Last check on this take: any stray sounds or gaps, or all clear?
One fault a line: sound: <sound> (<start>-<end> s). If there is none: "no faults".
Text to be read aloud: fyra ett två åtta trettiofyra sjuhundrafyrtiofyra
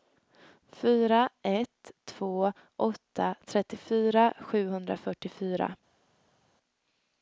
no faults